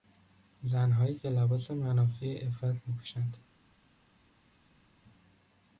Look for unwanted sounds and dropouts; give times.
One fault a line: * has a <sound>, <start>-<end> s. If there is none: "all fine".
all fine